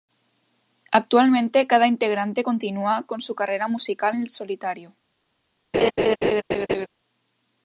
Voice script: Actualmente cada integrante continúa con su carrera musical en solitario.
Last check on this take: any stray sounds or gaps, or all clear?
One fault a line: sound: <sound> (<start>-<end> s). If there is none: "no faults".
sound: laugh (5.7-6.9 s)